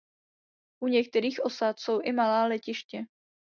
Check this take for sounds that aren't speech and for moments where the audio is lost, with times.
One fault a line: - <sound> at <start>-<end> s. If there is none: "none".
none